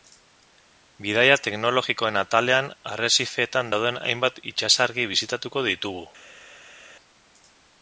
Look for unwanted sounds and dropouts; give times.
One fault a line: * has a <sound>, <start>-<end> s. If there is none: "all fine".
all fine